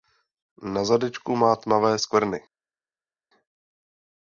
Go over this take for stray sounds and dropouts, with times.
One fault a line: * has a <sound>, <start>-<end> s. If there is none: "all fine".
all fine